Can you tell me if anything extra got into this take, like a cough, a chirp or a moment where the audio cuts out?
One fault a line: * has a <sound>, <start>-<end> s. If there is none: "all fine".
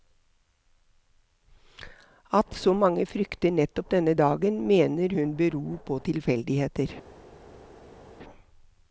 all fine